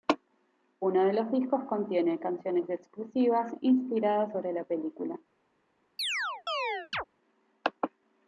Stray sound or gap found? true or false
true